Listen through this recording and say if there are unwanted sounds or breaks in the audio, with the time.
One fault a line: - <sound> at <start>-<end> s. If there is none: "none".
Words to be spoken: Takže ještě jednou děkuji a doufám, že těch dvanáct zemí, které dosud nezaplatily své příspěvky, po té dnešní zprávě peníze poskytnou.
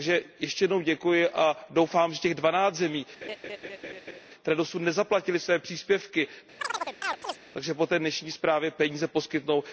- laugh at 3.2-4.2 s
- chirp at 6.6-7.4 s